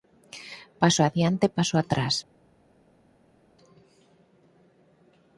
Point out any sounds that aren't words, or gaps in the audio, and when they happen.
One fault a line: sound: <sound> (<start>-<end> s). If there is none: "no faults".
no faults